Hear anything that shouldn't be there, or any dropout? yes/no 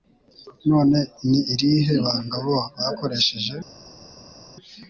no